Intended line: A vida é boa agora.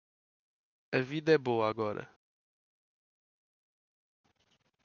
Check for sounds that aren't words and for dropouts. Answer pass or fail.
pass